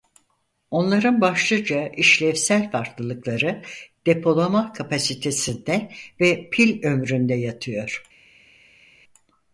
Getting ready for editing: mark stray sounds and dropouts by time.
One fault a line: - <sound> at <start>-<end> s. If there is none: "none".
none